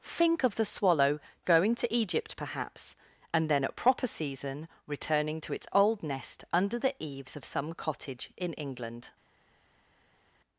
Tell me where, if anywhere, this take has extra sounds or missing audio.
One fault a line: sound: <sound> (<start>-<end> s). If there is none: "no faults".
no faults